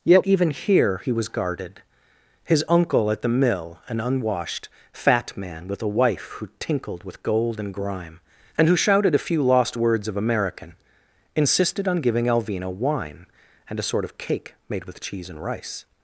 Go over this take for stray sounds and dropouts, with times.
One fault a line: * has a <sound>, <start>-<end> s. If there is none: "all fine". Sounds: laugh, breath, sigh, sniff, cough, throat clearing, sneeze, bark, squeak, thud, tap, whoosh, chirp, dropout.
all fine